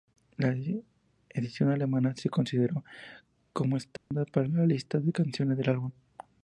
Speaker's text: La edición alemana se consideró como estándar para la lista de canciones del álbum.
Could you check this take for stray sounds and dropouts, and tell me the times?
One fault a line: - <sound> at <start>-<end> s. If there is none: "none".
- dropout at 4.0-4.1 s